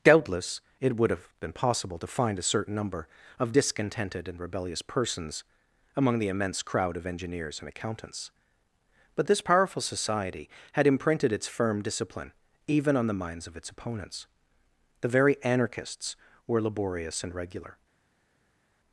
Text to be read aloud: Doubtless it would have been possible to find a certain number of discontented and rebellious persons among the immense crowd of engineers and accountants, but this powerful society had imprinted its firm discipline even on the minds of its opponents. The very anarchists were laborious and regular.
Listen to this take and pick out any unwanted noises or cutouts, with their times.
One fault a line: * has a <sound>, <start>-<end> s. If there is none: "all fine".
all fine